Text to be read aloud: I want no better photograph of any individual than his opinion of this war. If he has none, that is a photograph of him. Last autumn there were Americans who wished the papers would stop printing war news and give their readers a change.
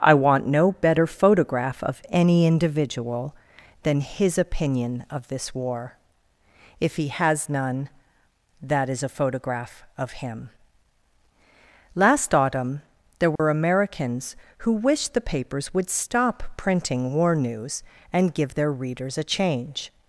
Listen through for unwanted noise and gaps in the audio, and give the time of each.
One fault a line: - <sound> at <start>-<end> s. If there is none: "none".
- dropout at 13.4-13.4 s